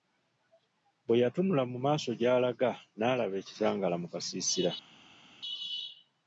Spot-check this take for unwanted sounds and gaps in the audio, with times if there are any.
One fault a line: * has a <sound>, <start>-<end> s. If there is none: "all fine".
all fine